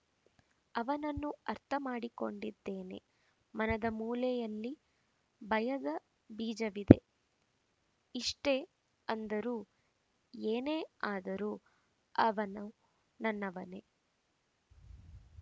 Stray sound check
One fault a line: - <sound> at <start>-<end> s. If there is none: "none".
none